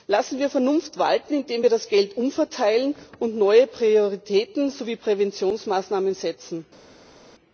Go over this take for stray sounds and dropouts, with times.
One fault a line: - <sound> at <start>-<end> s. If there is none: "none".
none